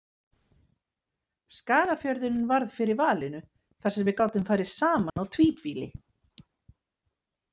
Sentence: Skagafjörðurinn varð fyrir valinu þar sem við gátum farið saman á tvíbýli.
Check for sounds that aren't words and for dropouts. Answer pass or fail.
fail